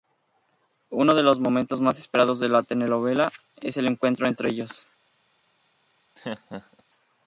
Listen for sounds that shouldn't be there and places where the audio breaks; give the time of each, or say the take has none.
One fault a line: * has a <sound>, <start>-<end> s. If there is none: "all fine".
* has a laugh, 6.1-6.8 s